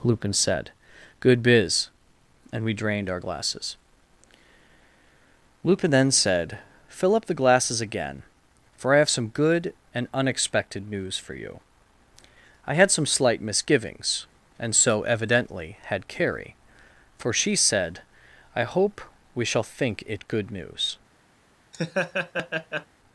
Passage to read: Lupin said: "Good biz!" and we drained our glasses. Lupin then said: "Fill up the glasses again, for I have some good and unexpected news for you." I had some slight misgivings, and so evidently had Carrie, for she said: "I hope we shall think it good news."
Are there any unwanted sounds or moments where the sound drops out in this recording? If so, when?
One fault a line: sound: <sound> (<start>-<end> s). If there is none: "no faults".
sound: laugh (21.7-22.9 s)